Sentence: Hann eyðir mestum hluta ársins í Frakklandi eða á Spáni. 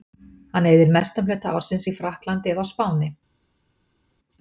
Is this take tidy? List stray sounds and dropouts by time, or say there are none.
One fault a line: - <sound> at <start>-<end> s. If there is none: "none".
none